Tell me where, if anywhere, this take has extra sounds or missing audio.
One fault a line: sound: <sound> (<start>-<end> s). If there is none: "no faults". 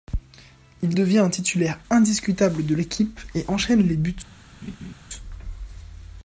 sound: laugh (4.6-4.9 s)